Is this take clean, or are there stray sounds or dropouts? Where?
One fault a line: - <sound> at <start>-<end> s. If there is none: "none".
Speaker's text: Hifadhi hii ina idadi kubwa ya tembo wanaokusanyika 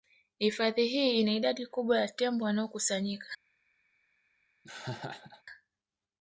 - laugh at 4.6-5.4 s